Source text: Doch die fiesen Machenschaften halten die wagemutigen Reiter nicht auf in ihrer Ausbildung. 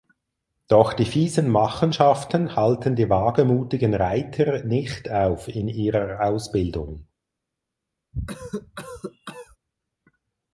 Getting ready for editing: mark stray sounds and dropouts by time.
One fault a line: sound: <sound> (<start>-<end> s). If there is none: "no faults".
sound: cough (8.1-9.6 s)